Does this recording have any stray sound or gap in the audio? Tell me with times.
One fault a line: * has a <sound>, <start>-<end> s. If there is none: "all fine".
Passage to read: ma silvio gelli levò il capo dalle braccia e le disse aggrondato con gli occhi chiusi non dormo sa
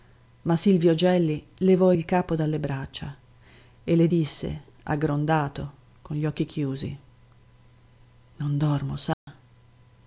* has a dropout, 9.1-9.3 s